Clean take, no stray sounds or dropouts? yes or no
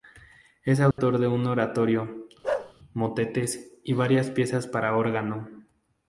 no